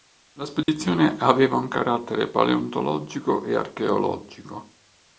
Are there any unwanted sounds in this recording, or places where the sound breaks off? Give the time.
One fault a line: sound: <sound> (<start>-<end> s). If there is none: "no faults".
sound: dropout (0.6-0.7 s)